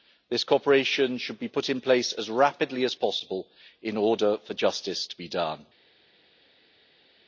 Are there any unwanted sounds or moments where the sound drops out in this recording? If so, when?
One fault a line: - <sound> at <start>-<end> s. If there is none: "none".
none